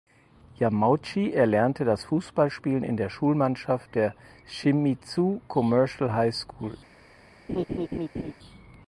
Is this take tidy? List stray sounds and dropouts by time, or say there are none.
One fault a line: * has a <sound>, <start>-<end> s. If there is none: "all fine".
* has a laugh, 7.5-8.3 s